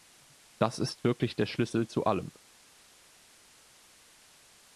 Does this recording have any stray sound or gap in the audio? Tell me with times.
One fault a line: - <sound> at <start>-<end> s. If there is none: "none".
none